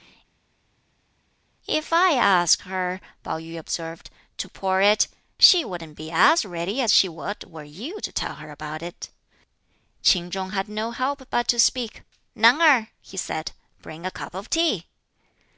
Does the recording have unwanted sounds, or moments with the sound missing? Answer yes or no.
no